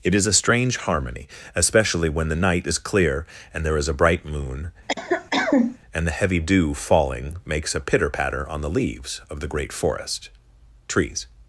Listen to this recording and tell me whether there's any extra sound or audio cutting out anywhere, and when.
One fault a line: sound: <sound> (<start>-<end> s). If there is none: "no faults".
sound: cough (4.9-5.8 s)